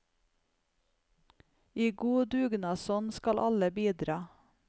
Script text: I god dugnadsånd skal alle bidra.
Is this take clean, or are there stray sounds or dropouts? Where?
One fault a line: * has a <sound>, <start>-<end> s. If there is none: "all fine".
all fine